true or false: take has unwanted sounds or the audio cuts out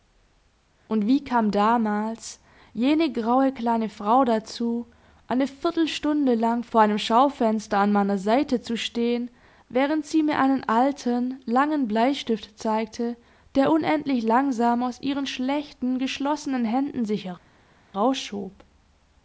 false